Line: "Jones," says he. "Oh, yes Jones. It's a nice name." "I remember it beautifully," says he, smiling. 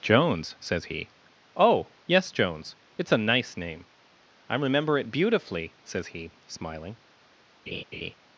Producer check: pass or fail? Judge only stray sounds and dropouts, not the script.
fail